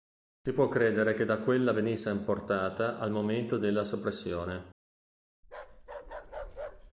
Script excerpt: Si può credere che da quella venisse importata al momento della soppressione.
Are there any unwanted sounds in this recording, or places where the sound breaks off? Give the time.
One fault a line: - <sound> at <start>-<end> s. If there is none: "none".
- bark at 5.4-6.9 s